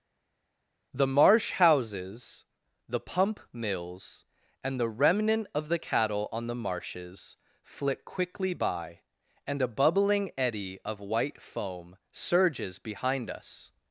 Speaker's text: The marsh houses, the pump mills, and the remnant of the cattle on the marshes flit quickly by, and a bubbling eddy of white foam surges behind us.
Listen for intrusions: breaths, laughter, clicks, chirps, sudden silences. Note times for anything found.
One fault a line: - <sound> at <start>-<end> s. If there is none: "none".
none